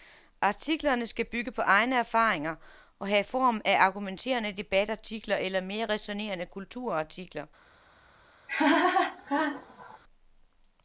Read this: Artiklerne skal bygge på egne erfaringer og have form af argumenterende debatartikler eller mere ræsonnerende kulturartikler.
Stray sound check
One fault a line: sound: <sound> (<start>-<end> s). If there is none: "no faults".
sound: laugh (8.5-10.0 s)